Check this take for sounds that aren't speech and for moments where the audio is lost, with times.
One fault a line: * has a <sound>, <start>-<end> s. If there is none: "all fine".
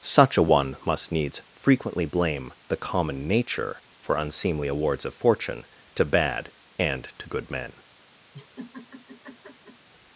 * has a laugh, 8.3-9.9 s